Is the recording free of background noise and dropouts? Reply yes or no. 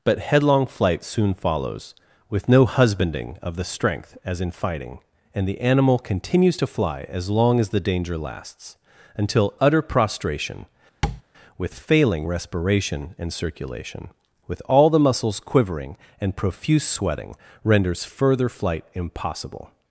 no